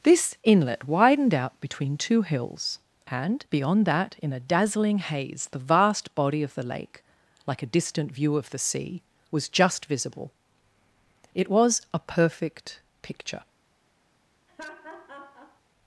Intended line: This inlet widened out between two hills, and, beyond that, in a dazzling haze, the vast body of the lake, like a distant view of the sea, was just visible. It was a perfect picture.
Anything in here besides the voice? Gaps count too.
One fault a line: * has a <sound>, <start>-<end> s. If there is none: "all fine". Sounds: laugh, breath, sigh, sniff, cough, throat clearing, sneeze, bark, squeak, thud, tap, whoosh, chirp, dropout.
* has a laugh, 14.5-15.6 s